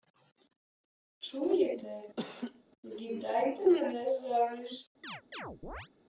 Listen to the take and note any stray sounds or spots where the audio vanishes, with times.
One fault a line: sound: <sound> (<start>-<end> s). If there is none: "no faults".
sound: laugh (2.2-2.6 s)
sound: chirp (5.0-5.9 s)